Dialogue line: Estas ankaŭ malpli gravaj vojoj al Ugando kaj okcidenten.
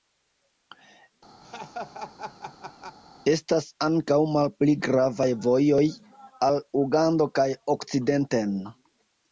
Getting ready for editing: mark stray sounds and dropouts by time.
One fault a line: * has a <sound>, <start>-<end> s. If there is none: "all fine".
* has a laugh, 1.4-3.0 s